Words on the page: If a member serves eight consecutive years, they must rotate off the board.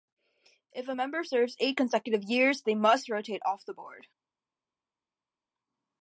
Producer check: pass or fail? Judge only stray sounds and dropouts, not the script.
pass